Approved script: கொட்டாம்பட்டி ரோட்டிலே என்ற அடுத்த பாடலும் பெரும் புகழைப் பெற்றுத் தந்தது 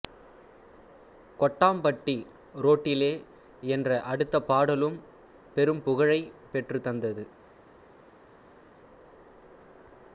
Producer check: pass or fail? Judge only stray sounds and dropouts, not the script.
pass